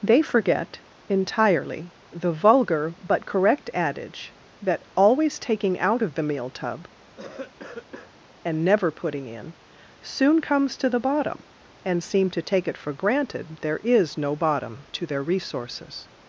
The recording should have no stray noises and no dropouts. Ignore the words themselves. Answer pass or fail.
fail